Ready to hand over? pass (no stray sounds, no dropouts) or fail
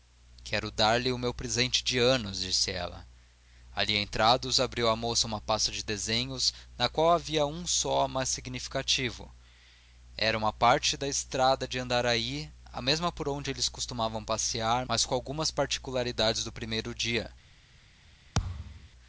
fail